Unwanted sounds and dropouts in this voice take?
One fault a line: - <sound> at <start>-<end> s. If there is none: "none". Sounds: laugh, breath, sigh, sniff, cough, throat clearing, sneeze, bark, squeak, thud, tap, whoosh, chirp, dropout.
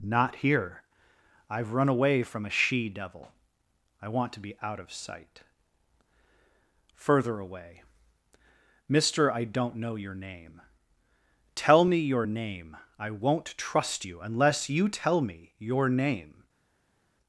none